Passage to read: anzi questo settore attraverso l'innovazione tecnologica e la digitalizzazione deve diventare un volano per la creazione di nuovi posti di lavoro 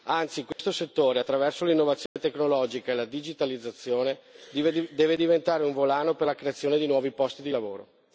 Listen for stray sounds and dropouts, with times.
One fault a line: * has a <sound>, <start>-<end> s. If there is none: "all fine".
* has a dropout, 0.5-0.6 s
* has a dropout, 2.1-2.2 s